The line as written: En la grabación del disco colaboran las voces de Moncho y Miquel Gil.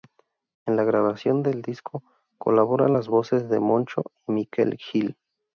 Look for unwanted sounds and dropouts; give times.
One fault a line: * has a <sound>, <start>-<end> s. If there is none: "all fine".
all fine